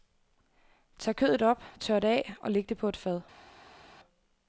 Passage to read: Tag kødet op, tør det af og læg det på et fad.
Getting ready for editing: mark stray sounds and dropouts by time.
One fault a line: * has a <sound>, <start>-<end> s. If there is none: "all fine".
all fine